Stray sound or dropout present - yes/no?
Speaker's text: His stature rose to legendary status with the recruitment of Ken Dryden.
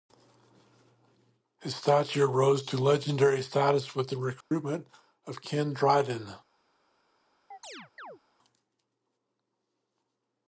yes